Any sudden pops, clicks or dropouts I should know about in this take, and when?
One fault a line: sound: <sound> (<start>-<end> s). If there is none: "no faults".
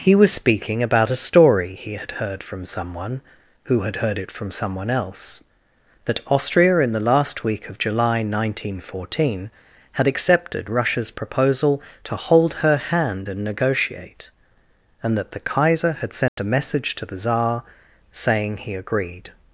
sound: dropout (16.3-16.4 s)